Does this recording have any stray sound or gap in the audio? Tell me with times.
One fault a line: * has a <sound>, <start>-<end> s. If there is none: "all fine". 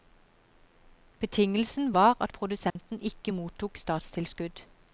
* has a dropout, 2.7-2.8 s